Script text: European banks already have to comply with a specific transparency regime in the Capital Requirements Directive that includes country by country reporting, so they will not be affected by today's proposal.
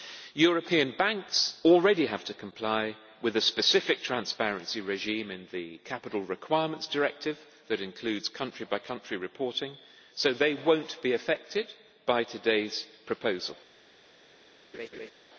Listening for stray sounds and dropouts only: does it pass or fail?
fail